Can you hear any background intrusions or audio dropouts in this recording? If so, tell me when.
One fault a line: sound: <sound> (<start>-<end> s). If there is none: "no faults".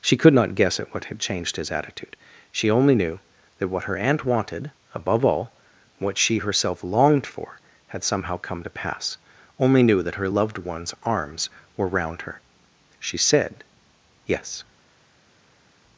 no faults